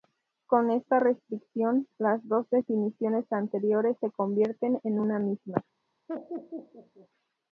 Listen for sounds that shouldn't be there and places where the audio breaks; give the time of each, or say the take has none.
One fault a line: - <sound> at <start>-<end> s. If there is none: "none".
- laugh at 6.1-7.1 s